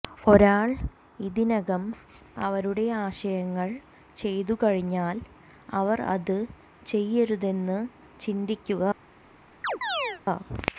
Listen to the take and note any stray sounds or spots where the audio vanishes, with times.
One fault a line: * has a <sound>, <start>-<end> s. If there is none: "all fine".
* has a chirp, 9.6-10.2 s